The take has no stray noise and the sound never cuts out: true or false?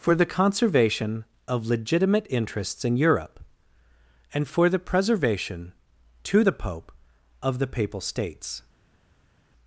true